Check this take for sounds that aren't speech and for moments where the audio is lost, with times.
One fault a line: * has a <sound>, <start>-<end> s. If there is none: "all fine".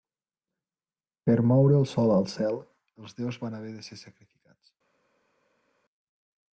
all fine